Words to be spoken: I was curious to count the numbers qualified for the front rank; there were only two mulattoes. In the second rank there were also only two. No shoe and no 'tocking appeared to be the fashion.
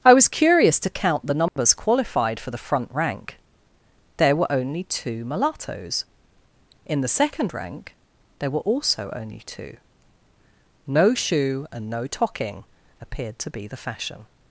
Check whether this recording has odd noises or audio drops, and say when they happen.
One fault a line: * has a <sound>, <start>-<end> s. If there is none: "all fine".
* has a dropout, 1.5-1.6 s